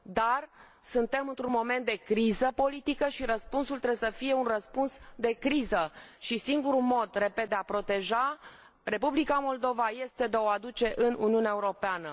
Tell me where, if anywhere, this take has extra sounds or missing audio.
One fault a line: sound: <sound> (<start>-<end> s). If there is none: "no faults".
no faults